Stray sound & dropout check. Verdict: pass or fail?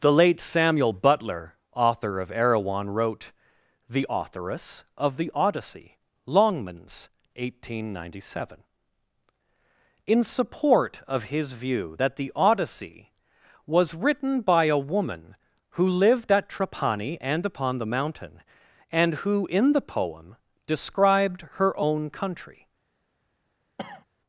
fail